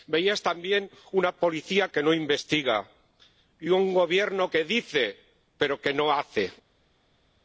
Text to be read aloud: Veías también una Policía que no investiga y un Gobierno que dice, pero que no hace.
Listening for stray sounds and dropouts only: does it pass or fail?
pass